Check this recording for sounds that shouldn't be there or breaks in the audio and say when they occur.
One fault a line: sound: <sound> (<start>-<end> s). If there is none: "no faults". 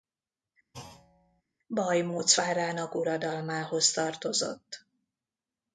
sound: thud (0.7-1.4 s)